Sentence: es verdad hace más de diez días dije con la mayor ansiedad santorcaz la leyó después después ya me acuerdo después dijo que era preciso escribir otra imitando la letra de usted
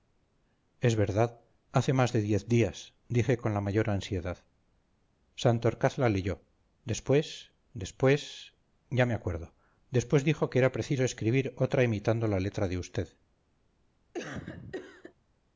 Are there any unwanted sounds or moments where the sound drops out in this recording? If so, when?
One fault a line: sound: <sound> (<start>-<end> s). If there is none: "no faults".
sound: cough (14.1-15.1 s)